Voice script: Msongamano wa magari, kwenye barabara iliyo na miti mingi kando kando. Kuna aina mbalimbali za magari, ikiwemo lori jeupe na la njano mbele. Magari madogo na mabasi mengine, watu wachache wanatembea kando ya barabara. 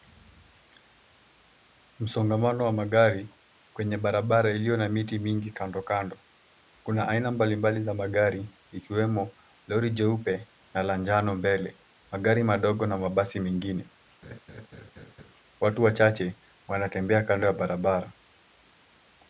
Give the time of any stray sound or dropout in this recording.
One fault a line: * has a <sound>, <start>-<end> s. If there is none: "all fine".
* has a laugh, 14.2-15.3 s